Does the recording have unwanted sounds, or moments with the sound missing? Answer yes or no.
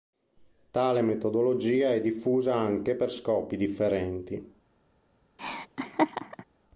yes